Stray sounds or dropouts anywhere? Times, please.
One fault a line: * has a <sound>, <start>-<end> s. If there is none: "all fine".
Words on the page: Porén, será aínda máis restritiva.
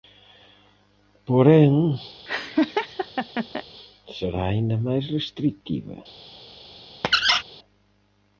* has a laugh, 2.3-3.6 s
* has a squeak, 7.0-7.4 s